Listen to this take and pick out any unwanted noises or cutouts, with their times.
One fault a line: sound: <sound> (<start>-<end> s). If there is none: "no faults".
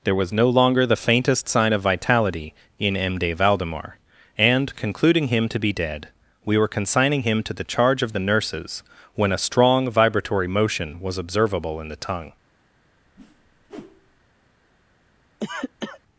sound: whoosh (13.2-14.2 s)
sound: cough (15.4-16.0 s)